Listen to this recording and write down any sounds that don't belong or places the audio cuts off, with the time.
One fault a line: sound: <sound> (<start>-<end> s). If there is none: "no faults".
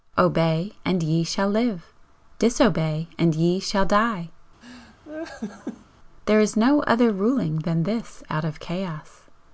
sound: laugh (4.6-5.9 s)